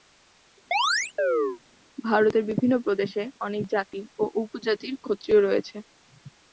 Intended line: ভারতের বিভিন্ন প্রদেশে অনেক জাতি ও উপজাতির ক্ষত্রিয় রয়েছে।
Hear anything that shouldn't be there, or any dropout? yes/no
yes